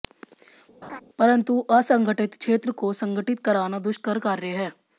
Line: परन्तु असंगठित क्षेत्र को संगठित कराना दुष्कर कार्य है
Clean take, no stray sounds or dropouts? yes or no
no